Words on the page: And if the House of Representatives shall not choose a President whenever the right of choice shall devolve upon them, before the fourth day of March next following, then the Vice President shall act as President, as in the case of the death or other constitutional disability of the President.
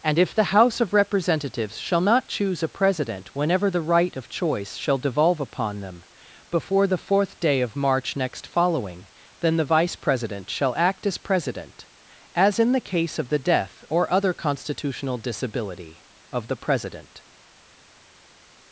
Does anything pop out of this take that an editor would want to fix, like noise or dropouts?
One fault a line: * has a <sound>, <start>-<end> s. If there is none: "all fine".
all fine